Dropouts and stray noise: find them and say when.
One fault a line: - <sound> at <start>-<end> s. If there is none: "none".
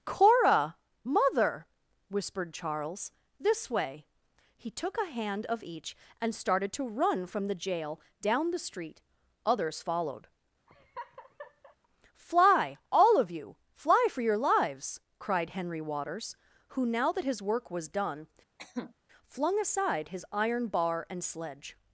- laugh at 10.7-11.8 s
- cough at 18.6-18.9 s